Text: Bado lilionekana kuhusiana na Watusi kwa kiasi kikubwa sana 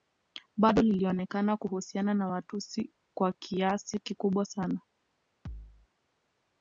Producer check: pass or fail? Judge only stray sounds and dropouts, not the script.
fail